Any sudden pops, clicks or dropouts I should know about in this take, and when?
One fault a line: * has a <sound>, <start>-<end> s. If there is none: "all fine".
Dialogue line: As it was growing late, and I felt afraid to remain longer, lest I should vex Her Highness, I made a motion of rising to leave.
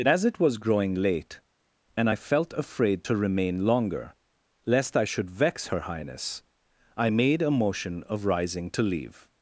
all fine